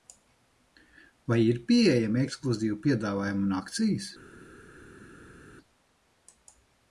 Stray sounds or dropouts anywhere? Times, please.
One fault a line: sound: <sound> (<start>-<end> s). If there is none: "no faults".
no faults